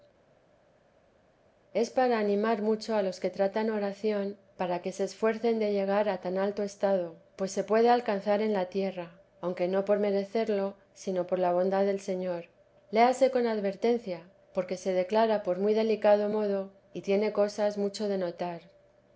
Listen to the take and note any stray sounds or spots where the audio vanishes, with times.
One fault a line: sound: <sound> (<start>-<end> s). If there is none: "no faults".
no faults